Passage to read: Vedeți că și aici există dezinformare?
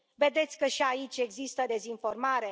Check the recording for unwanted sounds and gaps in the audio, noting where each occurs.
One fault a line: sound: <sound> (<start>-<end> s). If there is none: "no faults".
no faults